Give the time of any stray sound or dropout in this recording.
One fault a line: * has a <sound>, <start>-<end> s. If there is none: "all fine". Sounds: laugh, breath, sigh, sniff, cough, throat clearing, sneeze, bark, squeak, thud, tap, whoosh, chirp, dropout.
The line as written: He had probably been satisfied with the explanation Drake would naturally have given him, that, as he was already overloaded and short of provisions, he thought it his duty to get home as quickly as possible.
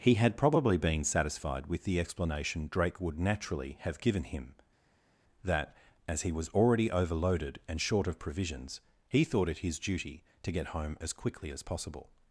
all fine